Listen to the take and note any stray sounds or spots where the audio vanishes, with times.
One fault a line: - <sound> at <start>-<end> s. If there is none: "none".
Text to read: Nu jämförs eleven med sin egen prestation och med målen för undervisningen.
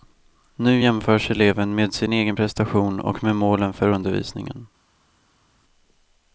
none